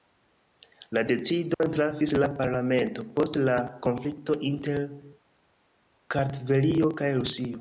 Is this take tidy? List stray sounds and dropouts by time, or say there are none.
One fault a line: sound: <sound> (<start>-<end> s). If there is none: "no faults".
sound: dropout (1.5-1.6 s)